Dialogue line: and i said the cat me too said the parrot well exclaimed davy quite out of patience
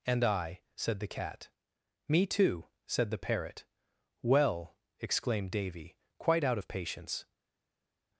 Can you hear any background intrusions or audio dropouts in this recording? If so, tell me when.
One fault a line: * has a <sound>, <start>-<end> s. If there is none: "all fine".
all fine